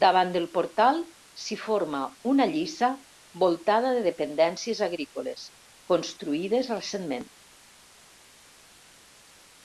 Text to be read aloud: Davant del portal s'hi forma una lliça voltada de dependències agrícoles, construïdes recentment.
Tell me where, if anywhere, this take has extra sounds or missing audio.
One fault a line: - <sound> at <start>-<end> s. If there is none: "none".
none